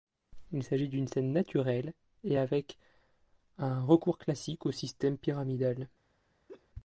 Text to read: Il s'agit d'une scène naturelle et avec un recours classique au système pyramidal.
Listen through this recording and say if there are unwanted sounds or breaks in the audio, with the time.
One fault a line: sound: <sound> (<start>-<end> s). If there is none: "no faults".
sound: laugh (6.5-6.7 s)